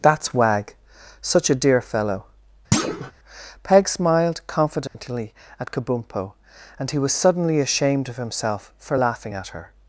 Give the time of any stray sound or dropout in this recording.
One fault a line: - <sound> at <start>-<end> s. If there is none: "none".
- thud at 2.7-3.1 s
- dropout at 4.9-4.9 s